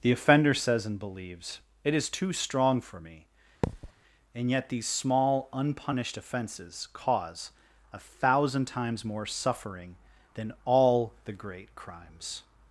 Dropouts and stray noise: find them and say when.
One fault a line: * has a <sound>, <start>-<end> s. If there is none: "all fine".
* has a thud, 3.6-3.9 s